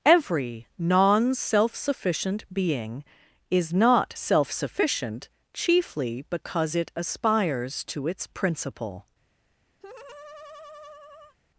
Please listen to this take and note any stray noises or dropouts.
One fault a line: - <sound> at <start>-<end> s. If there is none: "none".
- laugh at 9.8-11.4 s